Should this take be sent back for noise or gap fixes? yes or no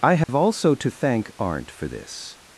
yes